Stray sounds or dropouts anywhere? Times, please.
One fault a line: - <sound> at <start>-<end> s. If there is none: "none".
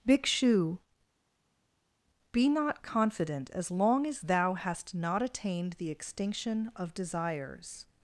none